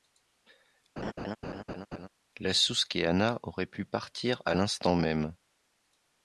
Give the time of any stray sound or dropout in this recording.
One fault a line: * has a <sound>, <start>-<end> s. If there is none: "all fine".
* has a laugh, 1.0-2.1 s